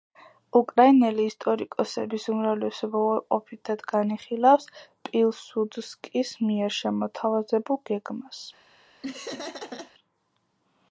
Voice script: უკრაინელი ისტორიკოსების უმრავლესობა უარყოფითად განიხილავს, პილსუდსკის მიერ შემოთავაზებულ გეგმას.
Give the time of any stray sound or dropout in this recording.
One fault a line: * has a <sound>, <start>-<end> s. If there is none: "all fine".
* has a laugh, 9.0-9.9 s